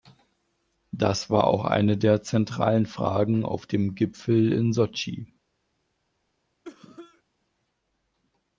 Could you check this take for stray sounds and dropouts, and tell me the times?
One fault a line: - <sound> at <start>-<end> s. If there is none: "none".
- cough at 6.6-7.2 s